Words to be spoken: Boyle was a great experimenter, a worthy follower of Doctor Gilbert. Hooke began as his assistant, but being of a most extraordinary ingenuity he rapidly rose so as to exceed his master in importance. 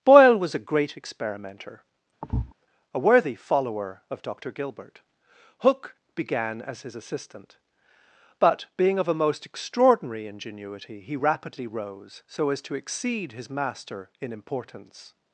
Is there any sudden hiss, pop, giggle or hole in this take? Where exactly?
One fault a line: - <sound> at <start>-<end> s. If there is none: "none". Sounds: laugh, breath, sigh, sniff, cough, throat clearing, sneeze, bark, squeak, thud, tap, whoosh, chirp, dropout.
- thud at 2.2-2.5 s